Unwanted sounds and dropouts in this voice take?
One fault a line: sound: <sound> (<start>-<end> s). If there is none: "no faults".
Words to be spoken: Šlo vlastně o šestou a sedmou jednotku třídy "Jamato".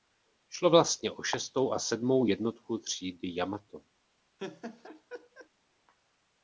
sound: laugh (4.4-5.5 s)